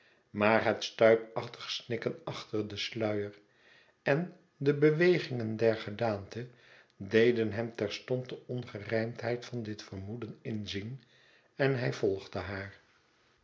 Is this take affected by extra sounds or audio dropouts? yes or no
no